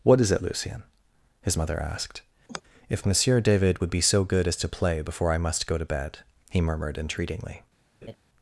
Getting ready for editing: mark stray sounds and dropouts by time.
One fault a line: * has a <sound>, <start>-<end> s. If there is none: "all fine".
* has a sigh, 2.5-2.6 s
* has a laugh, 8.0-8.2 s